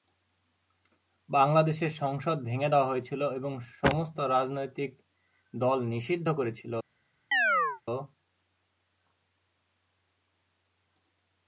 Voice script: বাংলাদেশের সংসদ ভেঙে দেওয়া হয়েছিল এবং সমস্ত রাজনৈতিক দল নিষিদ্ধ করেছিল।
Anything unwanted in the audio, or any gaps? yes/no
yes